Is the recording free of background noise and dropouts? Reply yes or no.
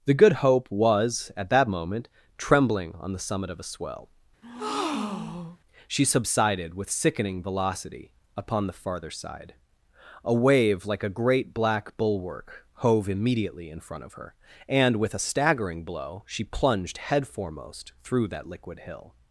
no